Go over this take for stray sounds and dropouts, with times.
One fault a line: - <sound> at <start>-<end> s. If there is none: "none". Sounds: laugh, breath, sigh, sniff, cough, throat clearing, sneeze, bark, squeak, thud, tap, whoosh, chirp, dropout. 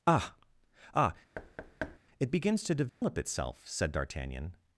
- thud at 1.3-2.0 s
- dropout at 2.9-3.0 s